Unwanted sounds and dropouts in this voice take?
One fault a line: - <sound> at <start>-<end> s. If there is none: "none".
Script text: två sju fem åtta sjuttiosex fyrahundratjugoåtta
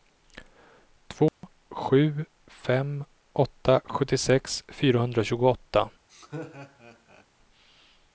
- dropout at 1.3-1.4 s
- laugh at 6.1-7.3 s